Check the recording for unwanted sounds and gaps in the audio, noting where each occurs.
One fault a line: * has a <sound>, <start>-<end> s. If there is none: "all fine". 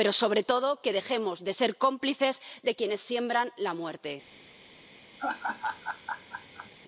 * has a laugh, 5.2-6.7 s